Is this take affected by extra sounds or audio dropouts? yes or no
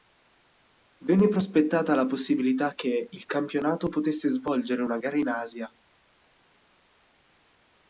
no